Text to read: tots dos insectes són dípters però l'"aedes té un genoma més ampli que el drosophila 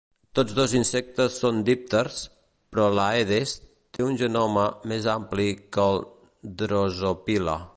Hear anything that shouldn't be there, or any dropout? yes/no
yes